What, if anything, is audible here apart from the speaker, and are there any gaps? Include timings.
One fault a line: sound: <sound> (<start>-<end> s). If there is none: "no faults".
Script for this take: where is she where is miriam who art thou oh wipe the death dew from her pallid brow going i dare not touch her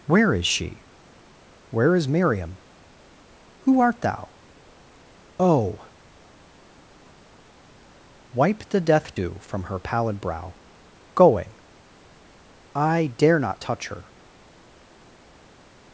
no faults